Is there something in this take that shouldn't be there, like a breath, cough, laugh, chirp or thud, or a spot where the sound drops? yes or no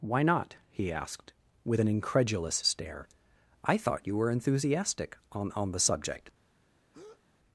yes